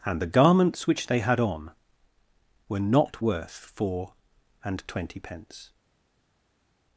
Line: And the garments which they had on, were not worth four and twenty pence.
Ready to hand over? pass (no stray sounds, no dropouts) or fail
pass